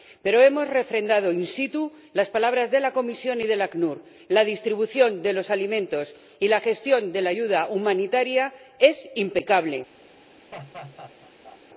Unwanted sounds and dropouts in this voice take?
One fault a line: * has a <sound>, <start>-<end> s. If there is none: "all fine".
* has a laugh, 10.5-11.6 s